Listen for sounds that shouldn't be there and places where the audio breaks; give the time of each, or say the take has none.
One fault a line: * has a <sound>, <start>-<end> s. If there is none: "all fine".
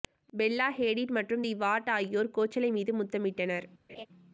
* has a laugh, 3.9-4.1 s